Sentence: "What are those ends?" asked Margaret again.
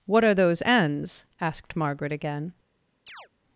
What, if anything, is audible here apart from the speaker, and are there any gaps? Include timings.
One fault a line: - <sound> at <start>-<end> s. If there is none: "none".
- chirp at 3.1-3.3 s